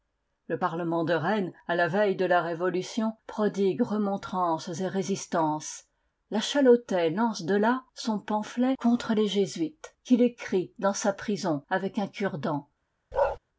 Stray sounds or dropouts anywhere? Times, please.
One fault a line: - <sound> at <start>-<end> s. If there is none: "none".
- bark at 13.1-13.4 s